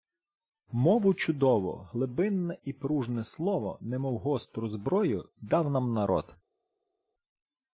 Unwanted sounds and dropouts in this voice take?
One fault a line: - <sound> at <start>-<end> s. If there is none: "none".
none